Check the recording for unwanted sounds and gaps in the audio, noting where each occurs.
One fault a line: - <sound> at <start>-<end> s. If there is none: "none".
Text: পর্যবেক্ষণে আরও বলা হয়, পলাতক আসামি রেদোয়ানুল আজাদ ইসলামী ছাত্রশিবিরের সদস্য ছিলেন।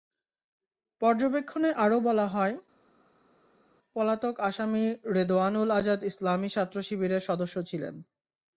none